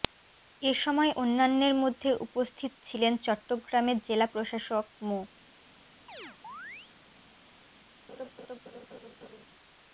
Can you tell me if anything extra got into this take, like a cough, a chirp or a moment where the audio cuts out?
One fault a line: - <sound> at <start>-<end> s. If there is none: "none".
- chirp at 6.1-6.9 s
- laugh at 8.1-9.4 s